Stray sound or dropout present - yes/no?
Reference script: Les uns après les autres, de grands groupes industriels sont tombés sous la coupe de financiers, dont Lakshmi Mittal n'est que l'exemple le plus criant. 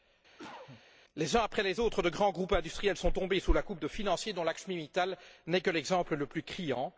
yes